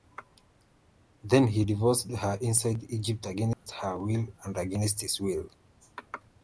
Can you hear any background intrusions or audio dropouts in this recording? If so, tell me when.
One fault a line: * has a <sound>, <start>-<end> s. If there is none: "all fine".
* has a dropout, 3.5-3.7 s